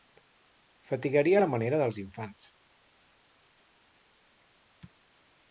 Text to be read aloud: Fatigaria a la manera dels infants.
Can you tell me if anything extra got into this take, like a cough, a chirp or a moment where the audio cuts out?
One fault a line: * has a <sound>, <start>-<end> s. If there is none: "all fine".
all fine